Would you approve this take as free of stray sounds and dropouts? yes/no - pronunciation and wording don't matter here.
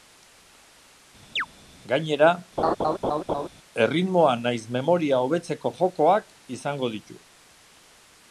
no